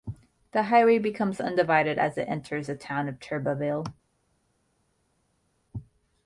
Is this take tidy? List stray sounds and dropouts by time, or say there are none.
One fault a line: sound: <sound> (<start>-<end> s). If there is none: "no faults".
no faults